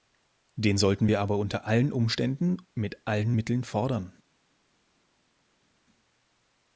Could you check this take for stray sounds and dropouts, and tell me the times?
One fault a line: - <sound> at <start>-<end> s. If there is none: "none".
none